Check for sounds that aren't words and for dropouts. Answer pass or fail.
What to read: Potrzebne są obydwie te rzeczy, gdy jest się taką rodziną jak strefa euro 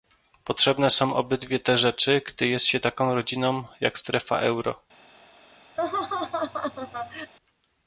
fail